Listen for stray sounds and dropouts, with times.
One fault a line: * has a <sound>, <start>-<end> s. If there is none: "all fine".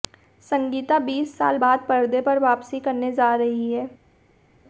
all fine